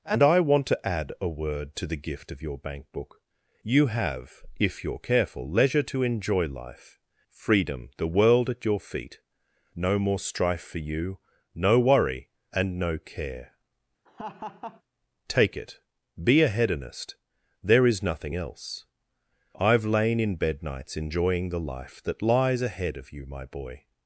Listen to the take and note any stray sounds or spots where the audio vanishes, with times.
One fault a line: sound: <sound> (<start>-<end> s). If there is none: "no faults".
sound: laugh (14.1-14.8 s)